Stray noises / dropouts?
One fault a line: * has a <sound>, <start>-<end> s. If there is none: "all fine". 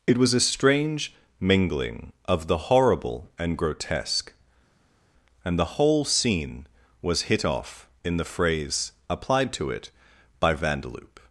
all fine